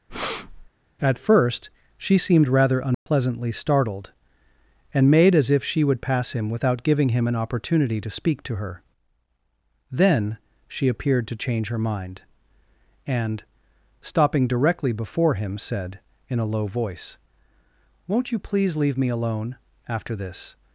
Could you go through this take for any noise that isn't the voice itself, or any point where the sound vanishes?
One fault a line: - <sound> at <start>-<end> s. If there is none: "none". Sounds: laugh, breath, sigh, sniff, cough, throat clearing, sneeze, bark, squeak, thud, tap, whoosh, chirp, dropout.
- breath at 0.1-0.7 s
- dropout at 2.9-3.1 s